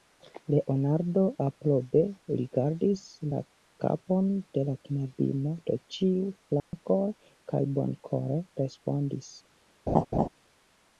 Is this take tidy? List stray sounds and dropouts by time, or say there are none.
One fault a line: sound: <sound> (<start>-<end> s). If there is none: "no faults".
sound: dropout (6.6-6.7 s)
sound: laugh (9.9-10.3 s)